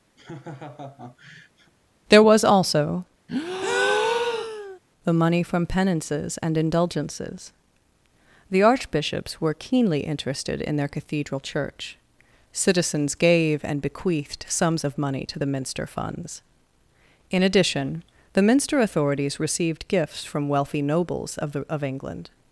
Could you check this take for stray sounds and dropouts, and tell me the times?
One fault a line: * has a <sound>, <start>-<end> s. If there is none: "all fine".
* has a laugh, 0.2-1.7 s
* has a breath, 3.3-4.8 s